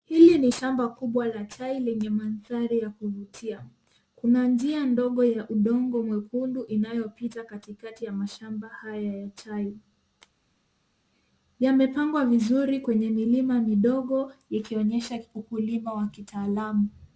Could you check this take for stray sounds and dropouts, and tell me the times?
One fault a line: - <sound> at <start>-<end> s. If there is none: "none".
none